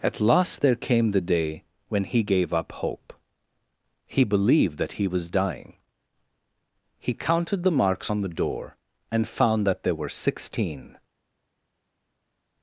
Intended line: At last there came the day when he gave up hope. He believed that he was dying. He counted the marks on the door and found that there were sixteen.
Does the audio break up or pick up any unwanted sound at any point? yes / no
no